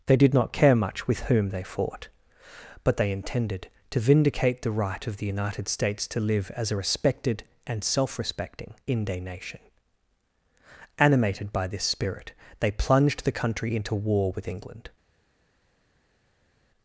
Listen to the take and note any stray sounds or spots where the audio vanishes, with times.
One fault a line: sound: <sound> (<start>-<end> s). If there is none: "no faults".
no faults